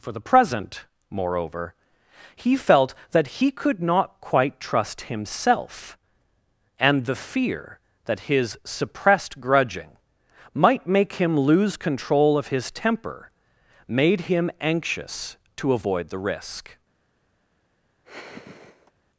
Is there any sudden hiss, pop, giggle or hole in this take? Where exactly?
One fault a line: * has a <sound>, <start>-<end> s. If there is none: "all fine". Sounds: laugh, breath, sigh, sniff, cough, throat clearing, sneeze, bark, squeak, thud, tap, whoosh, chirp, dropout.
* has a sigh, 18.0-18.9 s